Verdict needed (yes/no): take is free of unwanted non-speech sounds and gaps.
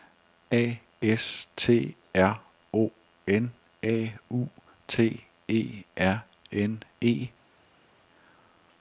yes